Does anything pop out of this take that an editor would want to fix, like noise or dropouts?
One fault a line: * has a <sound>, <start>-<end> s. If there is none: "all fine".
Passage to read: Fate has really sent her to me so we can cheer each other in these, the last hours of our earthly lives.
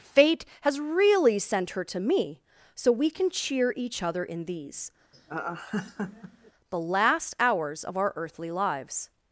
* has a laugh, 5.1-6.5 s